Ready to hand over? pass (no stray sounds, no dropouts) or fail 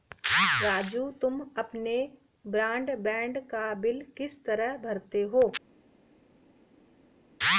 pass